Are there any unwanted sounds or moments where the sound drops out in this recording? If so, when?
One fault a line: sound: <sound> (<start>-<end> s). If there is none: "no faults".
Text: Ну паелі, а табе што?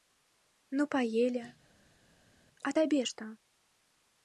no faults